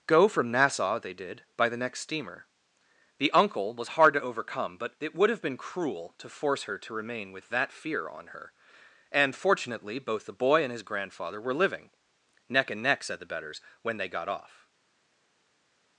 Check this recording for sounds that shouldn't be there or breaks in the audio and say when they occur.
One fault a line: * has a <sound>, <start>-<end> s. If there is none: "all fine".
all fine